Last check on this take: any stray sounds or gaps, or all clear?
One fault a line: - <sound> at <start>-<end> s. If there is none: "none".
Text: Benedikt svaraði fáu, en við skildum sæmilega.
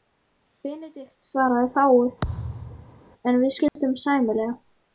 - thud at 2.2-3.0 s
- dropout at 3.7-3.8 s